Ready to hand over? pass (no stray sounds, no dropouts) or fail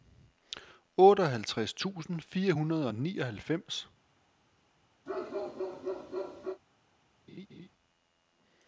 fail